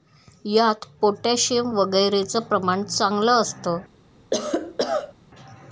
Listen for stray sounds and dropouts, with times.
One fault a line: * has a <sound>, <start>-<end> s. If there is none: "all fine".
* has a cough, 4.3-5.1 s